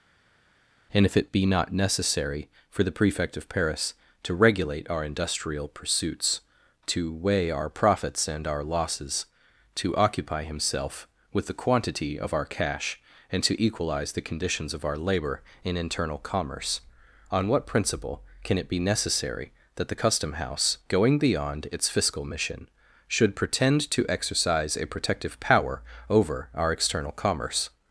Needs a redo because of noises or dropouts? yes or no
no